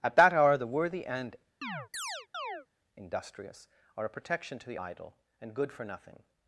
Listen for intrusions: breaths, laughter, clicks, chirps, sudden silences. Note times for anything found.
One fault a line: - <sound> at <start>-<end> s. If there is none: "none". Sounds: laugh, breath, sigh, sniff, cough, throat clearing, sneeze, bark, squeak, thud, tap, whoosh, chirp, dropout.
- chirp at 1.6-2.7 s